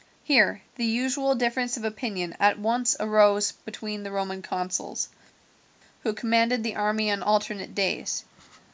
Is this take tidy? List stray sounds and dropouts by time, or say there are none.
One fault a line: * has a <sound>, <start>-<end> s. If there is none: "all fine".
all fine